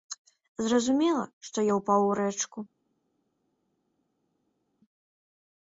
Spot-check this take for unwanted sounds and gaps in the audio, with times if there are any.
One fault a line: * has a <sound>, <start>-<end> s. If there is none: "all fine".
all fine